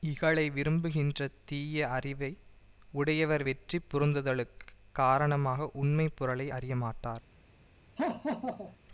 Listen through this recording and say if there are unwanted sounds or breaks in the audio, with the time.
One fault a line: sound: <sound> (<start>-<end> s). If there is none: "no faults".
sound: laugh (8.0-8.8 s)